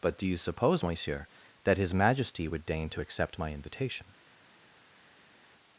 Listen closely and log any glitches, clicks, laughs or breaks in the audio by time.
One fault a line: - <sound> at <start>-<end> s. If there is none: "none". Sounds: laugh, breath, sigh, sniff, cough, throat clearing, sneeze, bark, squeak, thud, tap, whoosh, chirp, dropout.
none